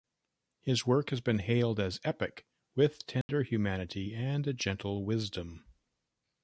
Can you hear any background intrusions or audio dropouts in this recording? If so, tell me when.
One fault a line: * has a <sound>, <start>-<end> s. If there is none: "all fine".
* has a dropout, 3.2-3.3 s